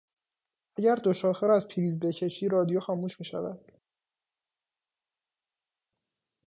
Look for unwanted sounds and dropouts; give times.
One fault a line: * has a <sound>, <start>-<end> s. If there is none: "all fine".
all fine